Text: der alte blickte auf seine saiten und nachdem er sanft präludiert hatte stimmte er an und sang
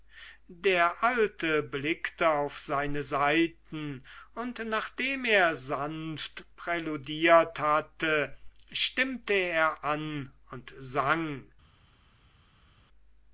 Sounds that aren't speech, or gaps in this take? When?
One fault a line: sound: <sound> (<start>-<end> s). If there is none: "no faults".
no faults